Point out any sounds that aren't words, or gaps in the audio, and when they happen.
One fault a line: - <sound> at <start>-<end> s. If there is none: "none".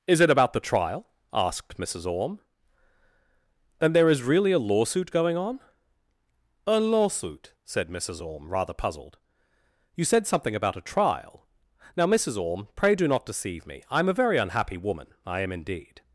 none